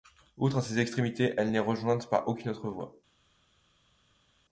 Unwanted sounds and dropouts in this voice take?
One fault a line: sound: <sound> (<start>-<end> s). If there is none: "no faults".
no faults